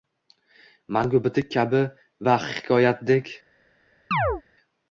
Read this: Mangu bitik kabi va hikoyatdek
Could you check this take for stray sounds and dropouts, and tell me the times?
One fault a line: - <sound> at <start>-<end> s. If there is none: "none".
- chirp at 4.1-4.4 s